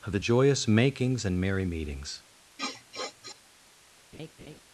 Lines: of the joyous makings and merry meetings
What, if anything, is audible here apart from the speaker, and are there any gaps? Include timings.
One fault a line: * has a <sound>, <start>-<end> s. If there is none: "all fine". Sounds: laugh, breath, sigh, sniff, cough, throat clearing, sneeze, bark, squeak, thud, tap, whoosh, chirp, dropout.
* has a sniff, 2.6-3.4 s
* has a laugh, 4.1-4.6 s